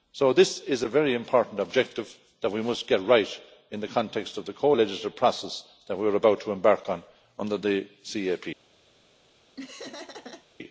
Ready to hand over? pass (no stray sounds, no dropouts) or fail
fail